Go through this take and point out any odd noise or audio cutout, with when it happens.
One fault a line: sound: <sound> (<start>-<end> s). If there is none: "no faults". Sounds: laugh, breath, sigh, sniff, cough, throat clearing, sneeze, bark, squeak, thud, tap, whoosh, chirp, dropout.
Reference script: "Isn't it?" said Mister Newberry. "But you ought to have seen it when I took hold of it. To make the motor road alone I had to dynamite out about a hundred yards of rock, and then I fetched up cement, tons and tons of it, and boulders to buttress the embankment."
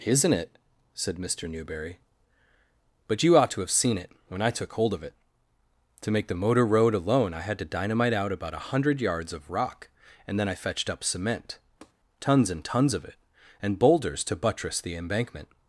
sound: tap (11.8-11.9 s)